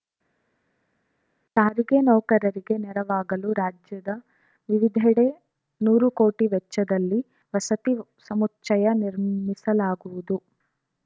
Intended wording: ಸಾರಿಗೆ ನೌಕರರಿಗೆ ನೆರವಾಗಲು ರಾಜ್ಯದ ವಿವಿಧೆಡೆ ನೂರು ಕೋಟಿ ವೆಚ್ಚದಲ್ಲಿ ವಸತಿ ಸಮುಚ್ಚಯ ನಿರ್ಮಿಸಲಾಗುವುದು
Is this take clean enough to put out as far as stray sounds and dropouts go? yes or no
yes